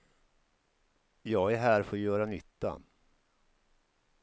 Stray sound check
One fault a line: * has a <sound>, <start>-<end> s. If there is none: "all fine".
all fine